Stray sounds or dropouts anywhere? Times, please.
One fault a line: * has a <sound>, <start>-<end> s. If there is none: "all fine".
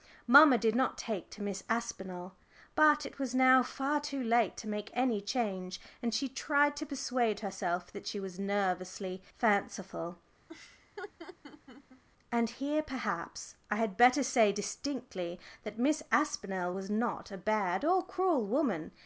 * has a laugh, 10.5-12.0 s